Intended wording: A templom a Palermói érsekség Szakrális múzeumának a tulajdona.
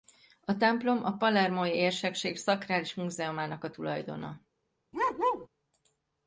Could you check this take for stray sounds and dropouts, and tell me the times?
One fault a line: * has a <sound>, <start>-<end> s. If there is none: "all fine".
* has a bark, 4.9-5.5 s